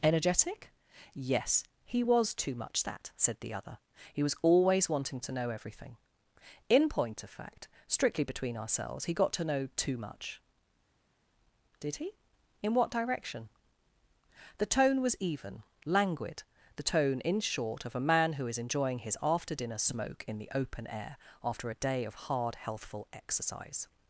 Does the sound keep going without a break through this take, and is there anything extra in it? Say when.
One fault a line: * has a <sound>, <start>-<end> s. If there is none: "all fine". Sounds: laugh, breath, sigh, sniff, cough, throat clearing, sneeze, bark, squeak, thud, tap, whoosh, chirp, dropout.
all fine